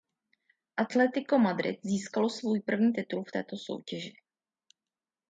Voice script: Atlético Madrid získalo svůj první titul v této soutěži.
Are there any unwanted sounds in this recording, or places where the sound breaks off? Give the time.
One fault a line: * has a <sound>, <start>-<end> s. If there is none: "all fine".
all fine